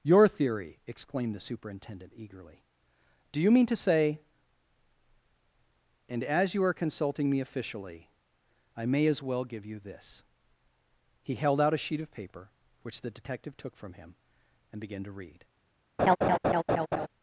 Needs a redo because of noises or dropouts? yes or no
yes